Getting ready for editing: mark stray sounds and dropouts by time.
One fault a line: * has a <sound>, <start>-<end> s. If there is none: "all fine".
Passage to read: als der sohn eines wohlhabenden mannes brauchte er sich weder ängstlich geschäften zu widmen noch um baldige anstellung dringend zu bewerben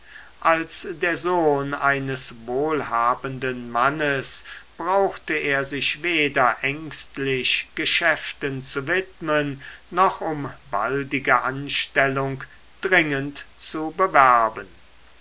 all fine